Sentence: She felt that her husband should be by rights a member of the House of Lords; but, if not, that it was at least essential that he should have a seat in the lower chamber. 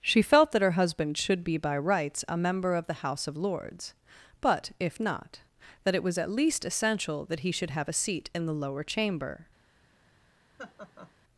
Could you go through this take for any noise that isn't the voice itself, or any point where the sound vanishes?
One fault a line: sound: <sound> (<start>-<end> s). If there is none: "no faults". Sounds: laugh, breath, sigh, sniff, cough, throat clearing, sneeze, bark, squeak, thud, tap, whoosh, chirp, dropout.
sound: laugh (10.6-11.1 s)